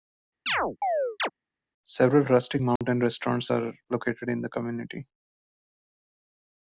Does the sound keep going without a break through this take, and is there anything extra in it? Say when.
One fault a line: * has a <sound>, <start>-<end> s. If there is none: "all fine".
* has a chirp, 0.5-1.3 s
* has a dropout, 2.8-2.8 s